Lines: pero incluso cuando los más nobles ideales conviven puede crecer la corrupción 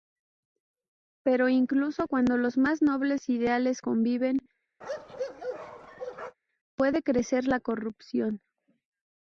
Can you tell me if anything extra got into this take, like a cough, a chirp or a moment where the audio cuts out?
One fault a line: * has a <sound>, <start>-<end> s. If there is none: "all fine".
* has a bark, 4.8-6.4 s